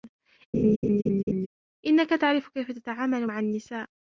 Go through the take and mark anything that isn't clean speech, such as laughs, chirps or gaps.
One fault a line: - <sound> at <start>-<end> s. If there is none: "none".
- laugh at 0.5-1.5 s